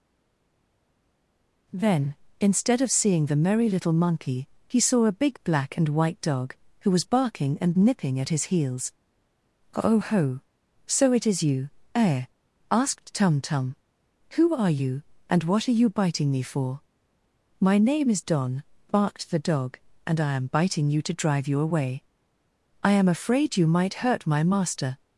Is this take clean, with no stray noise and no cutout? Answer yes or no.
yes